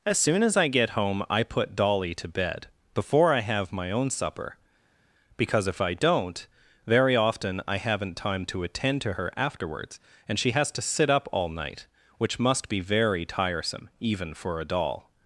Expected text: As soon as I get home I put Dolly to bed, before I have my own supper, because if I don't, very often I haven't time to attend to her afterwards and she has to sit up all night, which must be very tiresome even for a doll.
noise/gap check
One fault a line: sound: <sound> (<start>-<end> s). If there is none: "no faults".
no faults